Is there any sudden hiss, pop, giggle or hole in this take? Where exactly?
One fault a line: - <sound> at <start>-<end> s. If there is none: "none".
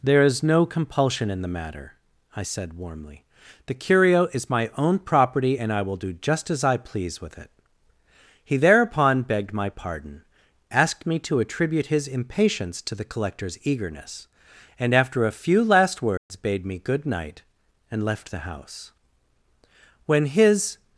- dropout at 16.2-16.3 s